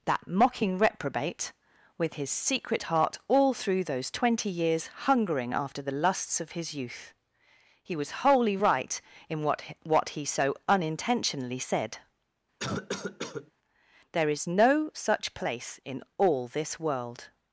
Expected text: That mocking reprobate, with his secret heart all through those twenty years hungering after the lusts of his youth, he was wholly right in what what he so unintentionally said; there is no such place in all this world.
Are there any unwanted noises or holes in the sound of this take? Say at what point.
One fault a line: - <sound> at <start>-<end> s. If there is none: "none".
- cough at 12.6-13.5 s